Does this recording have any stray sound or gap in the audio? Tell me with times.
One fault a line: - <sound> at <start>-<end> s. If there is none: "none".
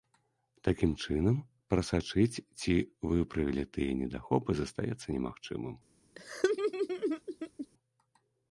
- laugh at 6.1-7.7 s